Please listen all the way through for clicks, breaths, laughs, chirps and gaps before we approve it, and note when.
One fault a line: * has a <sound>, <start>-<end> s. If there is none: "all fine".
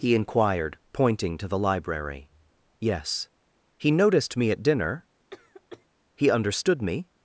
* has a cough, 5.3-5.9 s